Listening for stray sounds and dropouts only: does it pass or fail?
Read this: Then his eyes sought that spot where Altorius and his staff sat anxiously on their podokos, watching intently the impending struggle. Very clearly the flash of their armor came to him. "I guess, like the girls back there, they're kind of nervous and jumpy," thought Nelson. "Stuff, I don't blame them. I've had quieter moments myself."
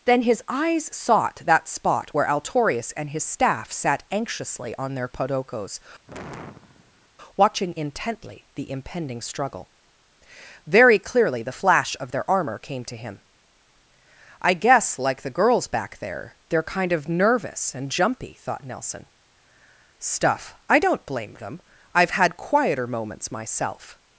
fail